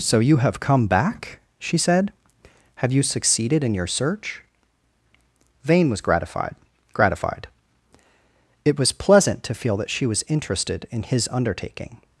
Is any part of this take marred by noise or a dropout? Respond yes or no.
no